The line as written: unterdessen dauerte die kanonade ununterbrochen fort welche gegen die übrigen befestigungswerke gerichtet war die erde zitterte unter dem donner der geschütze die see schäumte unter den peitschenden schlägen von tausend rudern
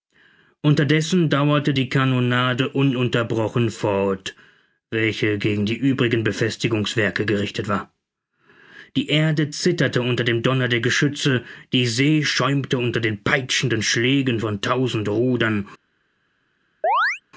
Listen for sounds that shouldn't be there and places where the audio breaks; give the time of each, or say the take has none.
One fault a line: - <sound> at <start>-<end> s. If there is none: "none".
- chirp at 16.8-17.2 s